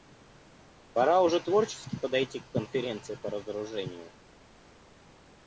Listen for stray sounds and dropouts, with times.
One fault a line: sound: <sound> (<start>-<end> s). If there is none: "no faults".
no faults